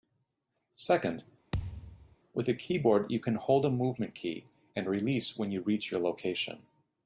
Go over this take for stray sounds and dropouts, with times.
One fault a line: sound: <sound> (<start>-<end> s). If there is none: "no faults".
sound: thud (1.5-2.2 s)